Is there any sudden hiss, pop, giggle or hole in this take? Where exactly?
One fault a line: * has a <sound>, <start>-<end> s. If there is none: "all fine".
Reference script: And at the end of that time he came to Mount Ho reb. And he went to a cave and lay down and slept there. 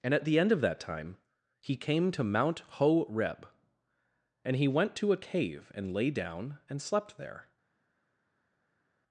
all fine